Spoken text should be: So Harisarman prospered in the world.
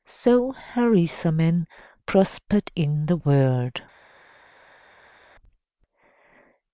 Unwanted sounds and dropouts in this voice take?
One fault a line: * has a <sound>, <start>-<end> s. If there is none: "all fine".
all fine